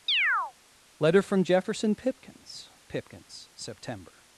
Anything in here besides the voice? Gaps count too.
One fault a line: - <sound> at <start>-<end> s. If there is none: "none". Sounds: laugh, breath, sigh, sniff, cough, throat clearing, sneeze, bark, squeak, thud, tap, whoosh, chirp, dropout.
- chirp at 0.1-0.5 s